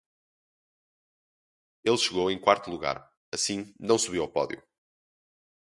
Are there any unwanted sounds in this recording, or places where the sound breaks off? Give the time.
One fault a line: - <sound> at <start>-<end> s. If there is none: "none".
none